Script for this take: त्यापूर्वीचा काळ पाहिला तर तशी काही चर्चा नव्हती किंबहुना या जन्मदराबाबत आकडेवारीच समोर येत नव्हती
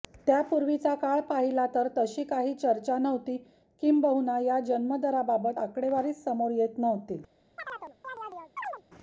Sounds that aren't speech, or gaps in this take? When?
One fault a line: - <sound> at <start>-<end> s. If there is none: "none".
- chirp at 7.6-8.8 s